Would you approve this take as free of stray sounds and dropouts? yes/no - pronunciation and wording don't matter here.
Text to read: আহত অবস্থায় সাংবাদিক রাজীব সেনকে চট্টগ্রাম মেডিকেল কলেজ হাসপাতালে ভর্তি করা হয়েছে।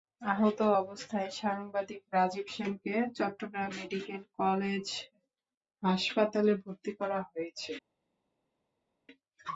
yes